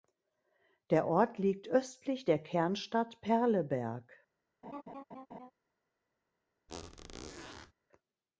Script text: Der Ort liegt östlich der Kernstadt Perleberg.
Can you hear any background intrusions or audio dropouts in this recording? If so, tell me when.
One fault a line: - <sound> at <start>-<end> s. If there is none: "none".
- laugh at 4.6-5.5 s
- squeak at 6.7-7.7 s